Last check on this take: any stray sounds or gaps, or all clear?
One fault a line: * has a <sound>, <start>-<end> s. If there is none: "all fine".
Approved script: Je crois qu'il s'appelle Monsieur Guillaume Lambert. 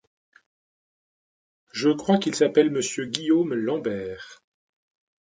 all fine